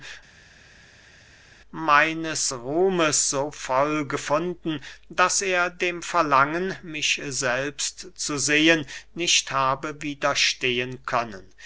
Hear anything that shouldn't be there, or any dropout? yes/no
no